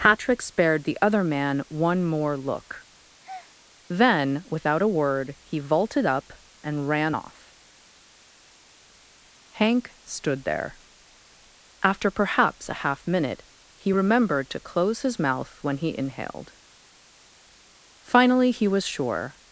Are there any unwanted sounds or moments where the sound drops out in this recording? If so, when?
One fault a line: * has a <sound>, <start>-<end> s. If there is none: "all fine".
* has a breath, 3.2-3.6 s